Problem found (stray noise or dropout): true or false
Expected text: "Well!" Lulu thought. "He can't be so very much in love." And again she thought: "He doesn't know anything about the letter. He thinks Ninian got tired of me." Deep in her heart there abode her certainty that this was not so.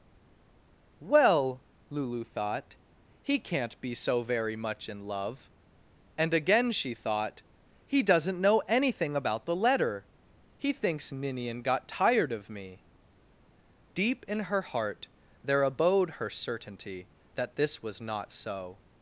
false